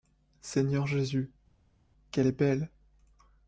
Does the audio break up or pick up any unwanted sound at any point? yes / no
no